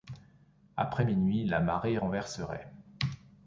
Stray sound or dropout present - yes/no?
no